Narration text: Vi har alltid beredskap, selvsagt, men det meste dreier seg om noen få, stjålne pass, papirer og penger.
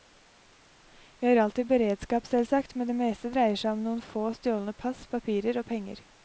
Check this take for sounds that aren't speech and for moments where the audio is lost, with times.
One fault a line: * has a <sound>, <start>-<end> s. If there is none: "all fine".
all fine